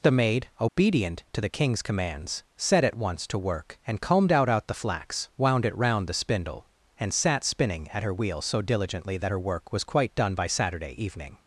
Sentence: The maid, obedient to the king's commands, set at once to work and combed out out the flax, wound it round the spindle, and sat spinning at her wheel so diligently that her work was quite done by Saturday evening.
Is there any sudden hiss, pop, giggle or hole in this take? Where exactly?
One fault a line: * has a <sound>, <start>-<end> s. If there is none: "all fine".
* has a dropout, 0.7-0.8 s